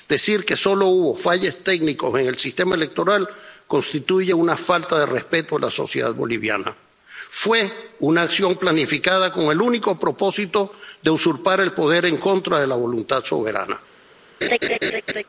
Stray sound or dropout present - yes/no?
yes